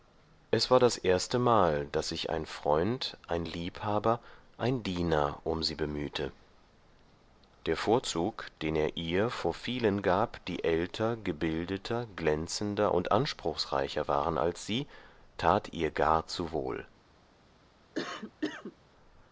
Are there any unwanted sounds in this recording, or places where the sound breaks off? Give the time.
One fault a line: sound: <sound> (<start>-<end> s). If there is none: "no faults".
sound: cough (17.9-18.8 s)